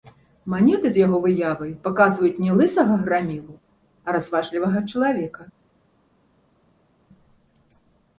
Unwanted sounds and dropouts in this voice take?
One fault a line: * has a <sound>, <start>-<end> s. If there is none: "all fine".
all fine